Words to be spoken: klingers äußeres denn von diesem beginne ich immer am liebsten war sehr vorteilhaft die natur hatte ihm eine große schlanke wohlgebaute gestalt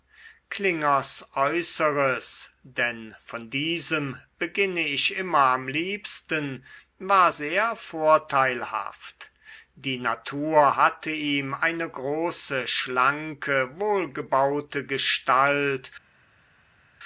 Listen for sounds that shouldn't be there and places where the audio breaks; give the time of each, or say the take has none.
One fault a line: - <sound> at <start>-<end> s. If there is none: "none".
none